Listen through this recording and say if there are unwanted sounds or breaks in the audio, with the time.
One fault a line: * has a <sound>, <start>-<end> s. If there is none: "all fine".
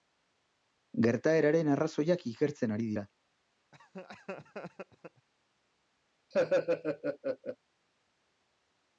* has a laugh, 3.7-5.3 s
* has a laugh, 6.3-7.6 s